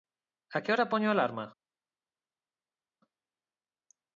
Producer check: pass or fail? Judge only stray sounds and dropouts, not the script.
pass